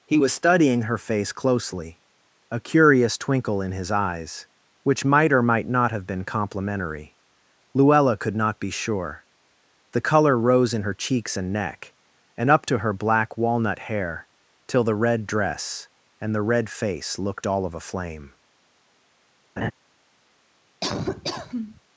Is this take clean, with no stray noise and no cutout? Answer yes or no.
no